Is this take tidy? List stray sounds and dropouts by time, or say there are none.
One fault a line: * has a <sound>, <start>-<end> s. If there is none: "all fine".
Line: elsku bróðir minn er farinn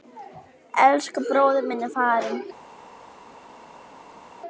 all fine